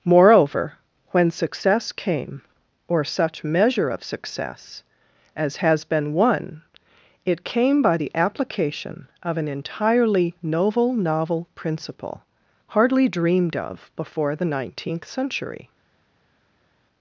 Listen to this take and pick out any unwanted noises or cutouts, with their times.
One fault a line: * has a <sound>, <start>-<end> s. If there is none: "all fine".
all fine